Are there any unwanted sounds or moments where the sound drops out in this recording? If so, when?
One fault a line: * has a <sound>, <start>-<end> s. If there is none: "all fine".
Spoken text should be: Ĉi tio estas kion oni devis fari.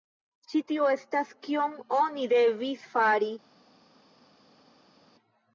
all fine